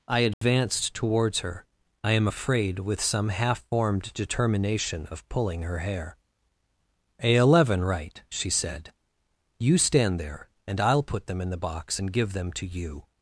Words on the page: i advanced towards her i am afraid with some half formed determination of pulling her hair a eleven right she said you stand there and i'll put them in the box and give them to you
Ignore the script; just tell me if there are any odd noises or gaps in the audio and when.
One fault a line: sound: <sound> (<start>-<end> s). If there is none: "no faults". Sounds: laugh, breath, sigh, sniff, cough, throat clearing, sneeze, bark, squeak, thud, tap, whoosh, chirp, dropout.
sound: dropout (0.3-0.4 s)